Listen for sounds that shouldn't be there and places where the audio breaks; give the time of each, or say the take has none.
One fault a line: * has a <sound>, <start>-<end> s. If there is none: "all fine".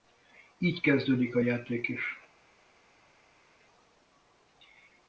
all fine